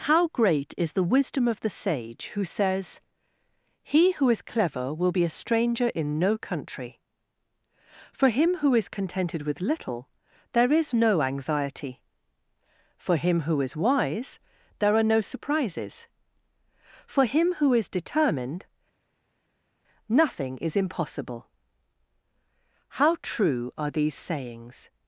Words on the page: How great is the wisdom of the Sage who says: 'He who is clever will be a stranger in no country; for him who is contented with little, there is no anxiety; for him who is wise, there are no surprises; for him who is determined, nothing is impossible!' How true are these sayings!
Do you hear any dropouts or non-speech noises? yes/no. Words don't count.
no